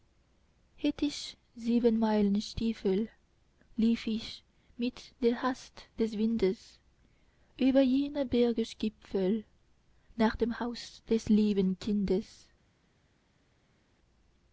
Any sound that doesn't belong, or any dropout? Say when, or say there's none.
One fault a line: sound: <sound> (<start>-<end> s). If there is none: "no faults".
no faults